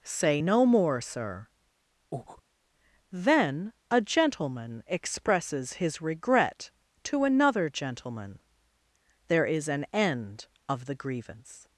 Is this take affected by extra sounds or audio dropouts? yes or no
yes